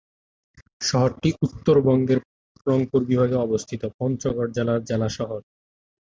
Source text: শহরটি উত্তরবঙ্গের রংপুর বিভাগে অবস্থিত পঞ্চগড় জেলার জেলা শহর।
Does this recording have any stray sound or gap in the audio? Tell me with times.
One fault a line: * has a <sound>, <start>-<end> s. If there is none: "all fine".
all fine